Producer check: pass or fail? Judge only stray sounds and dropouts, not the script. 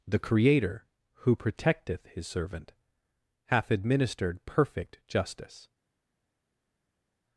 pass